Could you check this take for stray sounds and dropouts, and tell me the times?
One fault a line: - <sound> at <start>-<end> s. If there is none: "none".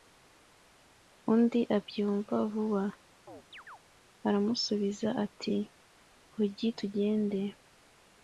- chirp at 3.3-3.8 s